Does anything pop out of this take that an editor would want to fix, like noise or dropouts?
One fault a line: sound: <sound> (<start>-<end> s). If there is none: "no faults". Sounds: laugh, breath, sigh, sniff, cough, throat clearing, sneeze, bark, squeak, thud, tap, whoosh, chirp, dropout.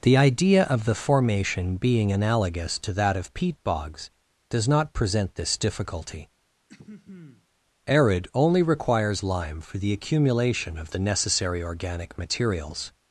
sound: throat clearing (6.7-7.5 s)